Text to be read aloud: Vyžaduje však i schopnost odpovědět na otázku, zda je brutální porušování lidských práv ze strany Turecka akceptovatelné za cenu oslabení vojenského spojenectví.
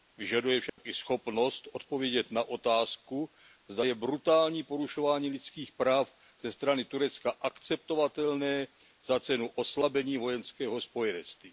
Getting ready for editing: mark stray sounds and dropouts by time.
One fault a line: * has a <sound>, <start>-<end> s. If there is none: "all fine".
* has a dropout, 0.7-0.8 s